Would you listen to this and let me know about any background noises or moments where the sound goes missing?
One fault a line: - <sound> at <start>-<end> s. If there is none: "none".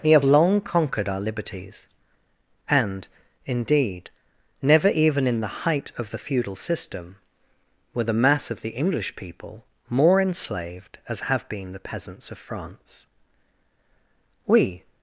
none